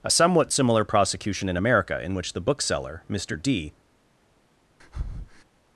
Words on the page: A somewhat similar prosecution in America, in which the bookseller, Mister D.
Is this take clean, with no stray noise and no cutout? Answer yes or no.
no